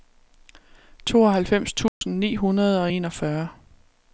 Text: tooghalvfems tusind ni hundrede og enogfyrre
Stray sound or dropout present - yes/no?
yes